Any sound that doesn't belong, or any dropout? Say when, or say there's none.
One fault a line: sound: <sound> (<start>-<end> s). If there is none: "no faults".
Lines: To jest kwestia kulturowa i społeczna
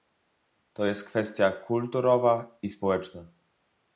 no faults